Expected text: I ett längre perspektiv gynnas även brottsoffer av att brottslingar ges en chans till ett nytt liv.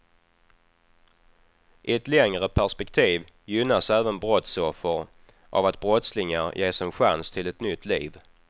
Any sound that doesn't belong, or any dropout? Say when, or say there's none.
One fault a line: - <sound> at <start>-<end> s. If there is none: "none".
none